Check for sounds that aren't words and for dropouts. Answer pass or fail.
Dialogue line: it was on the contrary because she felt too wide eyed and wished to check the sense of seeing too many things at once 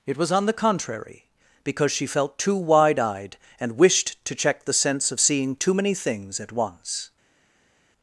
pass